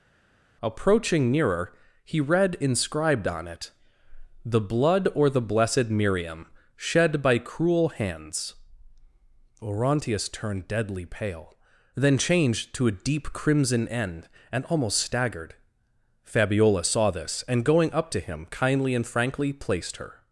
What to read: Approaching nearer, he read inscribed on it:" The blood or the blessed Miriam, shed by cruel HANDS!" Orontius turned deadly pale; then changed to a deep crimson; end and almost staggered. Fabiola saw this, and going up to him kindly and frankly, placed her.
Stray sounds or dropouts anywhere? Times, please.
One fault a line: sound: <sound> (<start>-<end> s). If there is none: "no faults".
no faults